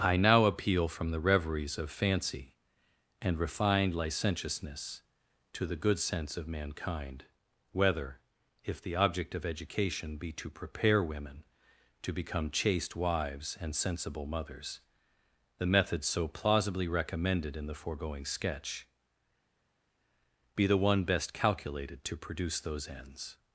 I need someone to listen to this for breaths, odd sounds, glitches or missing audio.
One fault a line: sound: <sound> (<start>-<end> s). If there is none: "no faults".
no faults